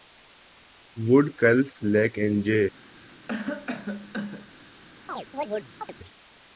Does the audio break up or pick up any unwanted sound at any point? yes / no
yes